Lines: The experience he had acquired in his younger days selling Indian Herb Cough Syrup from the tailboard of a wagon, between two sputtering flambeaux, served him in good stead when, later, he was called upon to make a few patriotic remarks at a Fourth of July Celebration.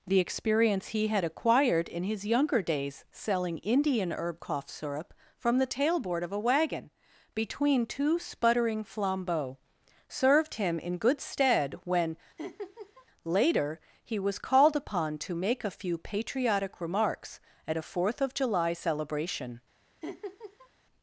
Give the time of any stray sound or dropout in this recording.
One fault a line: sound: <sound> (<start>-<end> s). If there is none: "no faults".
sound: laugh (12.4-13.1 s)
sound: laugh (20.0-20.7 s)